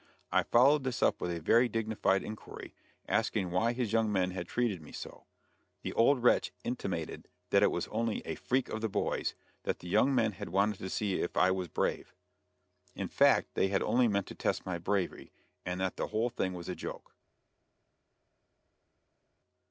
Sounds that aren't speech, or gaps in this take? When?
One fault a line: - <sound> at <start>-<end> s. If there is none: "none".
none